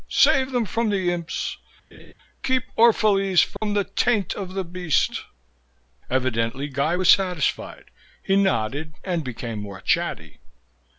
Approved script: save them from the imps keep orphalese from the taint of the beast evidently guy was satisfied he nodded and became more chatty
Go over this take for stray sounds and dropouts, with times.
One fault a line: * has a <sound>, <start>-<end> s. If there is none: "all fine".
* has a laugh, 1.9-2.1 s
* has a dropout, 3.6-3.6 s